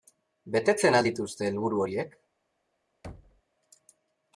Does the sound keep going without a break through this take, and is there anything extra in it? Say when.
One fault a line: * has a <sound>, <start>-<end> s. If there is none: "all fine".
* has a thud, 3.0-3.4 s